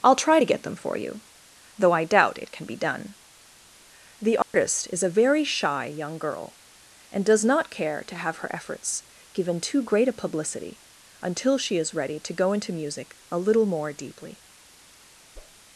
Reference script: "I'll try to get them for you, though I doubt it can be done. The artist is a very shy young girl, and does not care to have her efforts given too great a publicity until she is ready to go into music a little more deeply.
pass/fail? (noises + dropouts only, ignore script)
fail